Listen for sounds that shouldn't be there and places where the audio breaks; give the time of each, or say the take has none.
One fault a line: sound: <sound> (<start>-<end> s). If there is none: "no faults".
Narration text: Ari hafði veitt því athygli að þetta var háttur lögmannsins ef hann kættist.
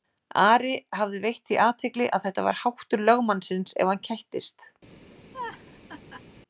sound: laugh (5.3-6.2 s)